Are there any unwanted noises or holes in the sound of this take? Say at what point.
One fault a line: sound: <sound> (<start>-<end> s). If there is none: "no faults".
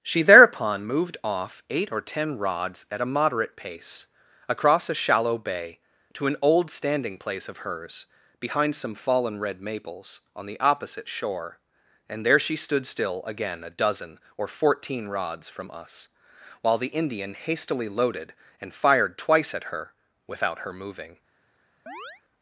sound: chirp (21.9-22.2 s)